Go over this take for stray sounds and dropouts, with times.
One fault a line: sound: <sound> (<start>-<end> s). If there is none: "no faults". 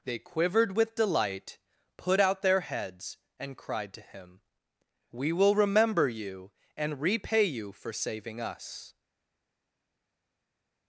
no faults